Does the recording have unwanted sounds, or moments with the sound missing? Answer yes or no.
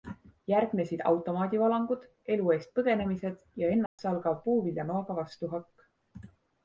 yes